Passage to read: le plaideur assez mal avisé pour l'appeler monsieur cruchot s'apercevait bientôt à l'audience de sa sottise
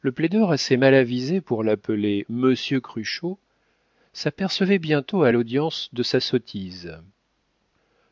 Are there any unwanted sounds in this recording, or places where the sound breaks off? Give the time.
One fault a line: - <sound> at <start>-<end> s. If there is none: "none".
none